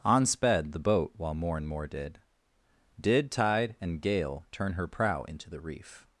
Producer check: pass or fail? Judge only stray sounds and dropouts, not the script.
pass